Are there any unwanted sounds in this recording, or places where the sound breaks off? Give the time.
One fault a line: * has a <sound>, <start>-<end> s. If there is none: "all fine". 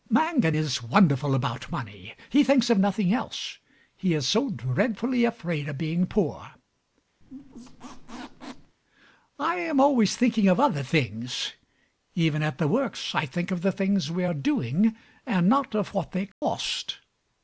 * has a squeak, 7.2-8.8 s
* has a dropout, 16.3-16.4 s